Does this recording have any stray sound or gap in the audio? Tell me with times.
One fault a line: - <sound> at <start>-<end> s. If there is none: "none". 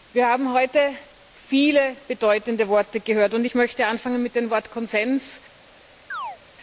- chirp at 6.1-6.4 s